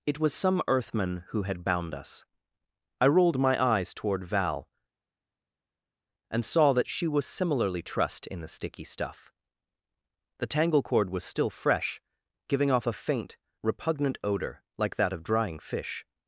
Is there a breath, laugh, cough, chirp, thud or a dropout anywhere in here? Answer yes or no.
no